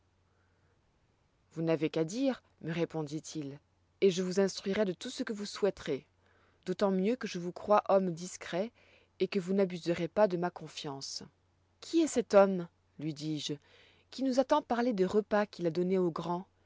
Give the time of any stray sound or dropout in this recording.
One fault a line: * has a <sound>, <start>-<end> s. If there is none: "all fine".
all fine